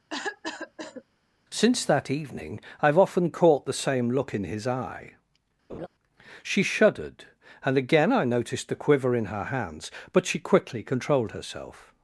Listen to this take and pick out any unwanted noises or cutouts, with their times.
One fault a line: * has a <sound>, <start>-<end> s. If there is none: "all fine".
* has a cough, 0.1-1.0 s
* has a laugh, 5.7-5.9 s